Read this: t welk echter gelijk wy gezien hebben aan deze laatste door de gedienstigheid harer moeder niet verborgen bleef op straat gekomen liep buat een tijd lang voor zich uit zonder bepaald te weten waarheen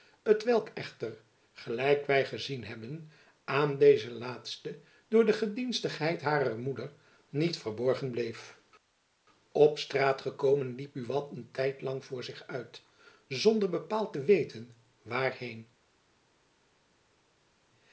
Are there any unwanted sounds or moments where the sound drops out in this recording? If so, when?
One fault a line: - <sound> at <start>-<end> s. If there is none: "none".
none